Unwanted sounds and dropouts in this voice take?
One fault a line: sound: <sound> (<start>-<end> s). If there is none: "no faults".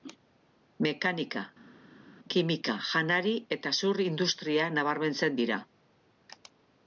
no faults